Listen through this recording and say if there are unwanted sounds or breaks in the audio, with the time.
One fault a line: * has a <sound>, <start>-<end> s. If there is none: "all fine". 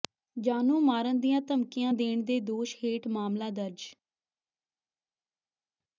all fine